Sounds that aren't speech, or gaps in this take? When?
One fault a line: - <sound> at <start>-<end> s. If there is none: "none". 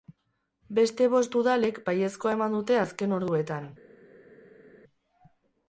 none